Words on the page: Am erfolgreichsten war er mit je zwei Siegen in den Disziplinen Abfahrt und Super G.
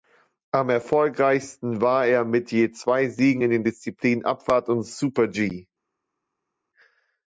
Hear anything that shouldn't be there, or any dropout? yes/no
no